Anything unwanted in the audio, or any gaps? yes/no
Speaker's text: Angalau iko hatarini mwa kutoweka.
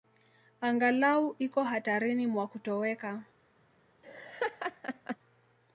yes